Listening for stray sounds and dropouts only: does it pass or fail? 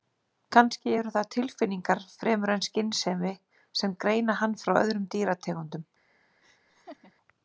fail